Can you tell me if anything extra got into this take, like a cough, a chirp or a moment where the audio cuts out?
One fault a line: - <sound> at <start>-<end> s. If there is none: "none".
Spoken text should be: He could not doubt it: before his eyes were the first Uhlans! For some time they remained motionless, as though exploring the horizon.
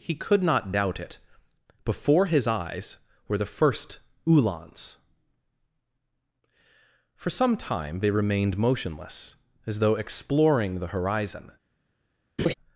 - laugh at 12.4-12.5 s